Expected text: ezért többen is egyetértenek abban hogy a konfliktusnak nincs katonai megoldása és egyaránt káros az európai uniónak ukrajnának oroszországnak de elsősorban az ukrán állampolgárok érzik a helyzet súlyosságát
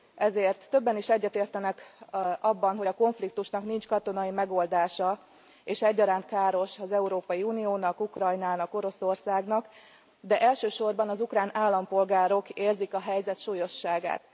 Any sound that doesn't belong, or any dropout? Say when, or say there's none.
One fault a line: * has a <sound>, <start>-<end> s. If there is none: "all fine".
all fine